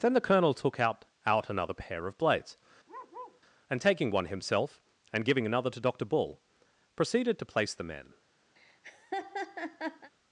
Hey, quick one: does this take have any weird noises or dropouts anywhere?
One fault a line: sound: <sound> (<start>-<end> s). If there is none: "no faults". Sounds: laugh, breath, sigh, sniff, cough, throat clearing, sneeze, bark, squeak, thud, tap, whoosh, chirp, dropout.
sound: bark (2.9-3.4 s)
sound: laugh (8.6-10.1 s)